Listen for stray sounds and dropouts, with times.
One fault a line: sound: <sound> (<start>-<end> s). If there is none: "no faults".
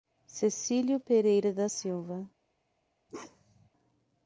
sound: bark (3.1-3.7 s)